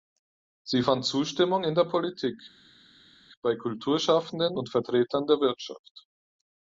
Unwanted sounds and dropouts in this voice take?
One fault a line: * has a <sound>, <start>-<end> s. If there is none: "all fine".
all fine